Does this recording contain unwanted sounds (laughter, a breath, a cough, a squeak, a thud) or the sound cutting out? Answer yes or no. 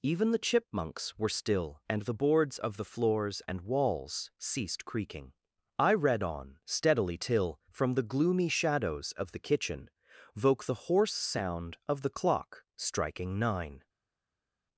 no